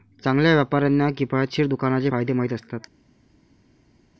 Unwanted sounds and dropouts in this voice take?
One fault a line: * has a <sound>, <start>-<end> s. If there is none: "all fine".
all fine